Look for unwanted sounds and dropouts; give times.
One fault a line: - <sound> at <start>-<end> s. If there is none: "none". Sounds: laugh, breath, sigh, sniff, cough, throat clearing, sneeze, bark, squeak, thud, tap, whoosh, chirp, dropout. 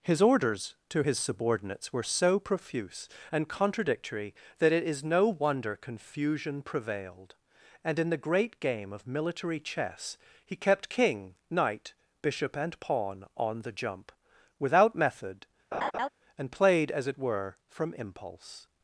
- laugh at 15.7-16.1 s